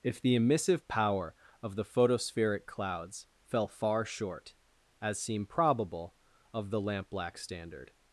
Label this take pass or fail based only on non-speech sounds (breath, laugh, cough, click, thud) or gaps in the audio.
pass